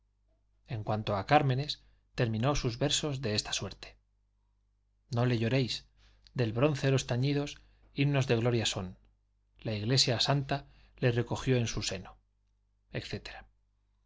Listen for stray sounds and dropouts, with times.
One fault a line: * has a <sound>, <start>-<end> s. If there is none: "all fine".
all fine